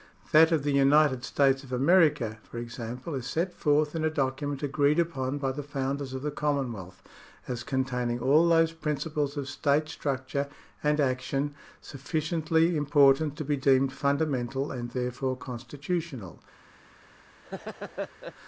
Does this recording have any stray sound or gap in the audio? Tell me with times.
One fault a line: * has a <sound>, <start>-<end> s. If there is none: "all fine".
* has a laugh, 17.4-18.3 s